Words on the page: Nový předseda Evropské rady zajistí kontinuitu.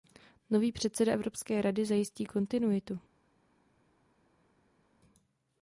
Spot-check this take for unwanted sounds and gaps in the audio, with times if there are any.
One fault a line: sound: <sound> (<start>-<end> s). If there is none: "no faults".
no faults